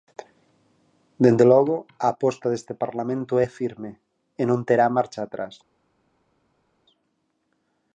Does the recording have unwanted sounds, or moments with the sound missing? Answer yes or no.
no